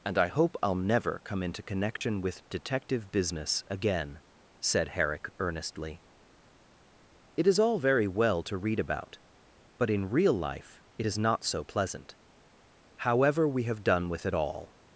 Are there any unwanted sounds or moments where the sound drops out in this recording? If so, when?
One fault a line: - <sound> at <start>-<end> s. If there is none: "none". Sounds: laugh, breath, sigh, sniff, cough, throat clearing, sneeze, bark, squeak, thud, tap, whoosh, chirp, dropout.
- dropout at 2.0-2.0 s